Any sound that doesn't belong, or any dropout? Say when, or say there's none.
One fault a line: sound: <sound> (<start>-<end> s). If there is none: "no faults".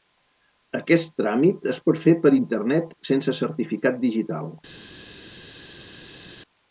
no faults